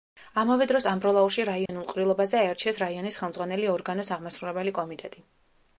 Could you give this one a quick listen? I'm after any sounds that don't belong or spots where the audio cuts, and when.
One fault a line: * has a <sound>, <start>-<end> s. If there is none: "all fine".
* has a dropout, 1.7-1.7 s